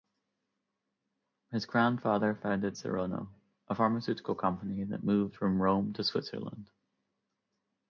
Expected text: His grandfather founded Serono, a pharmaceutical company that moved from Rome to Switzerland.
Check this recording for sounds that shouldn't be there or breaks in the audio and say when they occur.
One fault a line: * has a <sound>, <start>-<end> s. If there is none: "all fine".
all fine